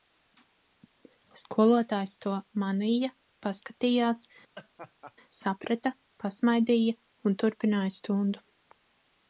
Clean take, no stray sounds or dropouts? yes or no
no